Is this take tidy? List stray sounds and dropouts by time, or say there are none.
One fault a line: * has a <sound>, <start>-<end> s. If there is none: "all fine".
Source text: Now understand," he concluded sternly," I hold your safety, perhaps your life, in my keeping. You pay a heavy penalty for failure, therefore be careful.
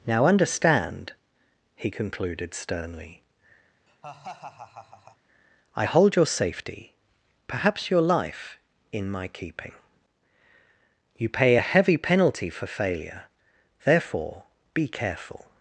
* has a laugh, 3.9-5.2 s